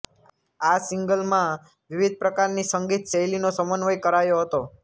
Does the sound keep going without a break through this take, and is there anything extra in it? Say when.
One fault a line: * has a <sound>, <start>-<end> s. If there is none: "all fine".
all fine